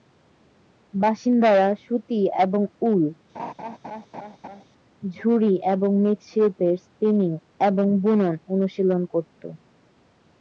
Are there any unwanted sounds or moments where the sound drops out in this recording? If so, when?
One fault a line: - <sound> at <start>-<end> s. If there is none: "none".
- laugh at 3.3-4.7 s